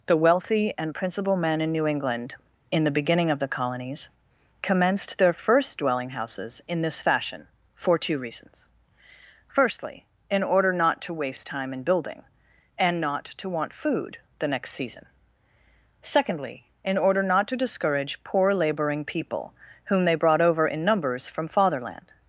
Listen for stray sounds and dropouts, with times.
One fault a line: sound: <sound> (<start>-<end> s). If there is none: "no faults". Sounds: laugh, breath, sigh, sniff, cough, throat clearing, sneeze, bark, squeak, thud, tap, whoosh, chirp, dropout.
no faults